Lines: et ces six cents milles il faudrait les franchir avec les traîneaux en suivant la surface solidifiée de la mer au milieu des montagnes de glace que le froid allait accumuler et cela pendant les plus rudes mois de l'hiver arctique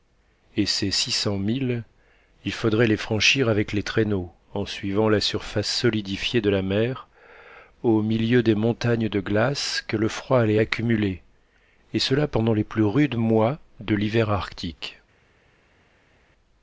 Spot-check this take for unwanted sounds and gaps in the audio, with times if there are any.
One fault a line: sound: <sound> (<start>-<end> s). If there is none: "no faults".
no faults